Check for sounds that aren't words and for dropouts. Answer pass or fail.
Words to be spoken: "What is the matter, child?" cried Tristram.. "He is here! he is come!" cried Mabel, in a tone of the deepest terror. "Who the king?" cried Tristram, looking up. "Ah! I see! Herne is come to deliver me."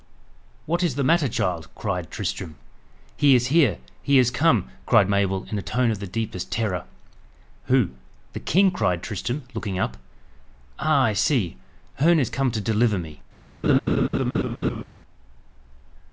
fail